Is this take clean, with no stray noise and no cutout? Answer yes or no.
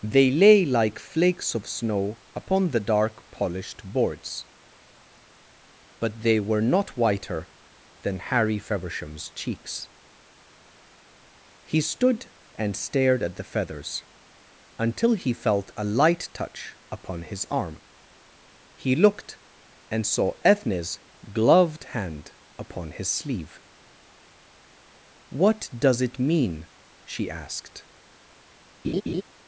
no